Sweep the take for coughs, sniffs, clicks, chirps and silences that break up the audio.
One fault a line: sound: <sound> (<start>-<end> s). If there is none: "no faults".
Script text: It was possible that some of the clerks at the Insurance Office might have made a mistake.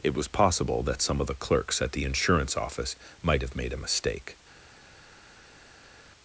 no faults